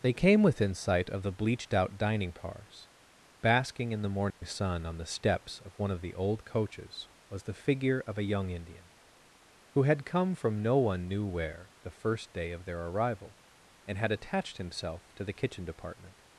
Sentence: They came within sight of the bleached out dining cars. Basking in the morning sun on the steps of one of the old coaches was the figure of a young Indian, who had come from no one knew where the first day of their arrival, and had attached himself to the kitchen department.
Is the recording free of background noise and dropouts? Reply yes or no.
no